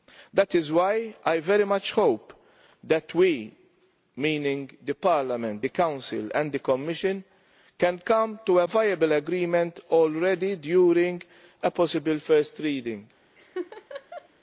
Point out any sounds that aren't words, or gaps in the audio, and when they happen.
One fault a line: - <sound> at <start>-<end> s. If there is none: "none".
- laugh at 13.4-14.3 s